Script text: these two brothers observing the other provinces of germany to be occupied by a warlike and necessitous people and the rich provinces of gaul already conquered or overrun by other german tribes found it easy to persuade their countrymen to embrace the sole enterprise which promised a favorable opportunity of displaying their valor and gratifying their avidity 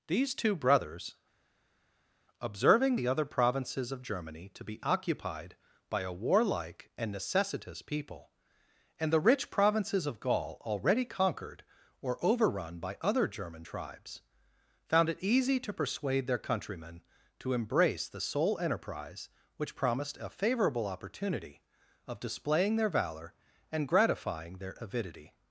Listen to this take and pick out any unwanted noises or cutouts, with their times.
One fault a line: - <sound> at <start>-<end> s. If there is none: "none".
none